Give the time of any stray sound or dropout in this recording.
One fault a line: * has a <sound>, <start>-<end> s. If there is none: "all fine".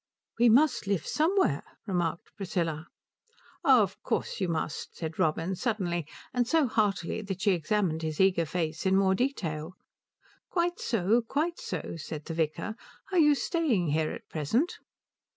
all fine